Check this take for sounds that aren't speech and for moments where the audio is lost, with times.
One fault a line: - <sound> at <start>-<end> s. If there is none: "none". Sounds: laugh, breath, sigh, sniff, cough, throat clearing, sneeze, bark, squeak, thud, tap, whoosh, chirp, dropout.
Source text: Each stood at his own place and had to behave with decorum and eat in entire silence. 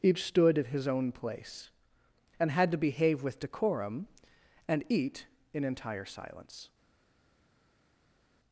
none